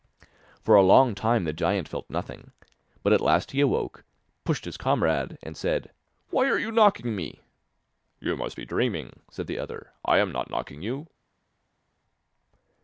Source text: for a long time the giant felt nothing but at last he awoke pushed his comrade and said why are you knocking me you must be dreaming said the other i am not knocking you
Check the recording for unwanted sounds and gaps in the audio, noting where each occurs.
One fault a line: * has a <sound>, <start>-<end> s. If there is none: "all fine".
all fine